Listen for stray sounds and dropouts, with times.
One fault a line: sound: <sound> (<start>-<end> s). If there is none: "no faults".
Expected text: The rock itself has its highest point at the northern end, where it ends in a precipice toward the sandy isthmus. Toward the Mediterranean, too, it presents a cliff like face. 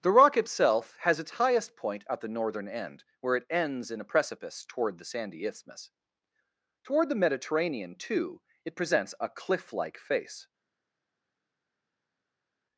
no faults